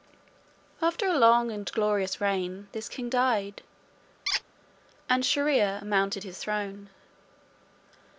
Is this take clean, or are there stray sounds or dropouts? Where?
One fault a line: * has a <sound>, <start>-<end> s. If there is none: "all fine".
* has a squeak, 4.3-4.4 s